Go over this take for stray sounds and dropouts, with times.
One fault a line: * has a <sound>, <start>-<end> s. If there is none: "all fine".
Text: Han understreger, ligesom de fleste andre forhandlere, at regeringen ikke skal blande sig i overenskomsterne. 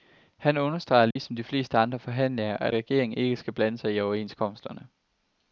* has a dropout, 1.1-1.2 s